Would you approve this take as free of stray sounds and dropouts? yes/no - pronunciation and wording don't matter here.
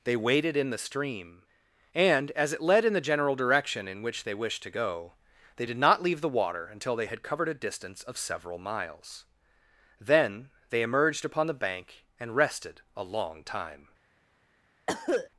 no